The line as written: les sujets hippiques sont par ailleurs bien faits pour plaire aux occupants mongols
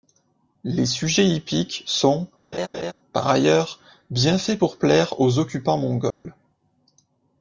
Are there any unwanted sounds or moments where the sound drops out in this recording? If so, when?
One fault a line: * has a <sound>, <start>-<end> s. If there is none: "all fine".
* has a laugh, 2.5-2.9 s
* has a dropout, 6.1-6.3 s